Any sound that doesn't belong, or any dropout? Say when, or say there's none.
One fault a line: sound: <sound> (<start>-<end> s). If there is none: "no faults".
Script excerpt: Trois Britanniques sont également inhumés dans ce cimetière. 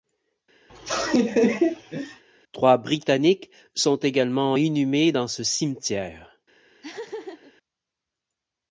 sound: laugh (0.7-2.2 s)
sound: laugh (6.8-7.5 s)